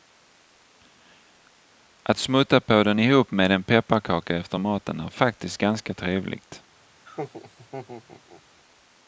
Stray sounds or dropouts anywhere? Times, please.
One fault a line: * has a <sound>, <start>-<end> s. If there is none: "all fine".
* has a laugh, 7.0-8.4 s